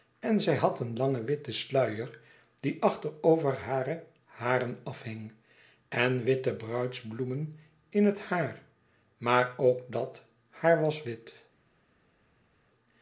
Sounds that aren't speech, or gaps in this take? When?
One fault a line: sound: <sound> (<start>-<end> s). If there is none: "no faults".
no faults